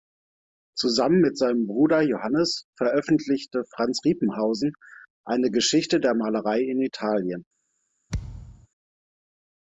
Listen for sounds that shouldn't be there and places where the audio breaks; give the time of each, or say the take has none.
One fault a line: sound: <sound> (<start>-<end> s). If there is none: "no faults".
sound: thud (8.1-8.7 s)